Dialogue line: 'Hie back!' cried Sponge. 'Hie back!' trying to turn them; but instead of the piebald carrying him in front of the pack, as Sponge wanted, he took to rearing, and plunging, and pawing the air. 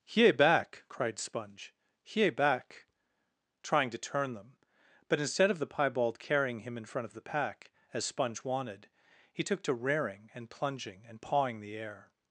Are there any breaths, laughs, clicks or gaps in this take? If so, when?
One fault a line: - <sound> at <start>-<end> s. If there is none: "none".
none